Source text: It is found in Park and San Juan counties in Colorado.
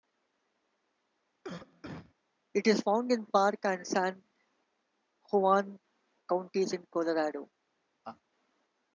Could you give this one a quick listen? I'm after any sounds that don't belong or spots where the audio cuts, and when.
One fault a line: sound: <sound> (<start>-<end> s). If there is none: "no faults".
sound: cough (1.4-2.1 s)
sound: laugh (8.0-8.2 s)